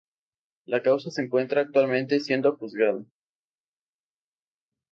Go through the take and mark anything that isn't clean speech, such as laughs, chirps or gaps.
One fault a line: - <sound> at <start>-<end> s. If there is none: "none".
none